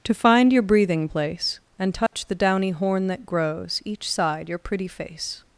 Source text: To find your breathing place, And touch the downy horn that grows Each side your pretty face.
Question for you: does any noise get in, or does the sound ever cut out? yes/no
yes